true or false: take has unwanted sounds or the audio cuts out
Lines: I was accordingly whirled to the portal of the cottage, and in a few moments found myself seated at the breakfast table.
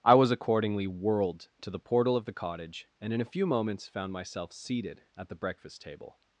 false